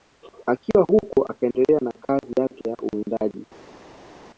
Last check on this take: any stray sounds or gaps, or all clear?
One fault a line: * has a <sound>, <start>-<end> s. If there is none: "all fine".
all fine